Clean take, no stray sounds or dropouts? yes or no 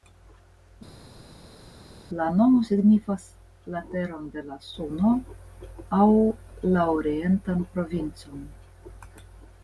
yes